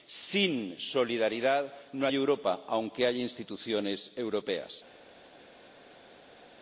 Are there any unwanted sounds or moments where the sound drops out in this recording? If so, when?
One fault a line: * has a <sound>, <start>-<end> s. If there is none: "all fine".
all fine